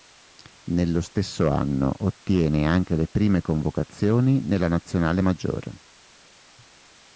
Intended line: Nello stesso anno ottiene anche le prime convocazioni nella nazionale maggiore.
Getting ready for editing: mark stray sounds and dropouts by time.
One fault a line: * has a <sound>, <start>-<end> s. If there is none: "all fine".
all fine